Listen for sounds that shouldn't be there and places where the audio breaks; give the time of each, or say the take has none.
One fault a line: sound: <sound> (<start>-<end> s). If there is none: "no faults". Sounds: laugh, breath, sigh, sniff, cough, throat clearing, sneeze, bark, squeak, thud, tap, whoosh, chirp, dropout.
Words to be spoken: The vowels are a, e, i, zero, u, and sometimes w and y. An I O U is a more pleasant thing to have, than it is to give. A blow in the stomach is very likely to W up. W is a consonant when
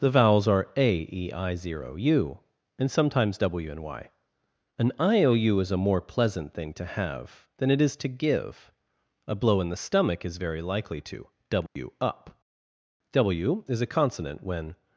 sound: dropout (11.7-11.8 s)